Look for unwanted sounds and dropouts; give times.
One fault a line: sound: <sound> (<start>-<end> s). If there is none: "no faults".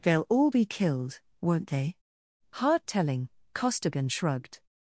no faults